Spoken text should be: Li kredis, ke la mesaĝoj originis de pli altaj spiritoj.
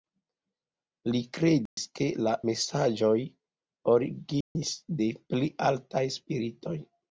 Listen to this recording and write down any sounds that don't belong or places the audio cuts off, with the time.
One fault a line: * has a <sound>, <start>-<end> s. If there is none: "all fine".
* has a dropout, 1.7-1.8 s
* has a dropout, 4.4-4.6 s